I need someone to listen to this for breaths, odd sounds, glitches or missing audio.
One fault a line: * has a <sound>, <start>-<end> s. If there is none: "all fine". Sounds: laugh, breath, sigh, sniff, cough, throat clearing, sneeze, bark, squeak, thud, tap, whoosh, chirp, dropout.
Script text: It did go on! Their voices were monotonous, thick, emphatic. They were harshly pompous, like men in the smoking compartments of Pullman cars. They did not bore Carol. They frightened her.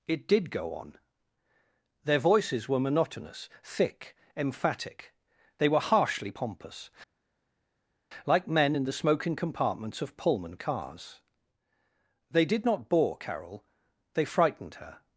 all fine